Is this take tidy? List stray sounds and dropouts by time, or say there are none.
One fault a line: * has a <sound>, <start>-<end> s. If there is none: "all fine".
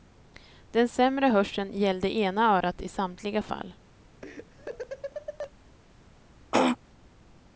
* has a laugh, 4.2-5.5 s
* has a throat clearing, 6.5-6.8 s